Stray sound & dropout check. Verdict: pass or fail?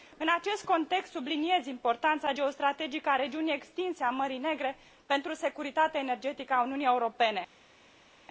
pass